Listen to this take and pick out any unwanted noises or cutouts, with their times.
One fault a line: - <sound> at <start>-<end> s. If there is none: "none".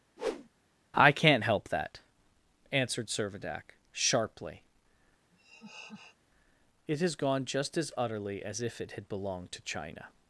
- whoosh at 0.2-0.5 s
- laugh at 5.3-6.2 s